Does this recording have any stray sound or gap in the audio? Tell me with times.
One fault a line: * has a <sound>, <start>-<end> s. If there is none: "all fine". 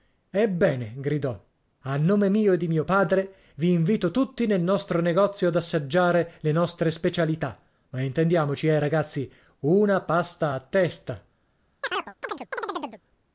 * has a chirp, 11.8-13.0 s